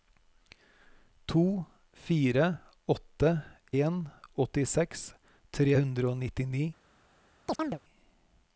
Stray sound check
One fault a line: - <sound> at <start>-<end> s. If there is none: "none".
- chirp at 7.5-7.8 s